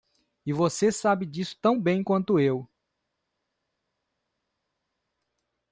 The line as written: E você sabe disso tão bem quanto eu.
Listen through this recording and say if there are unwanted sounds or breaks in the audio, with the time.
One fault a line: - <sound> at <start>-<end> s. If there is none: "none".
none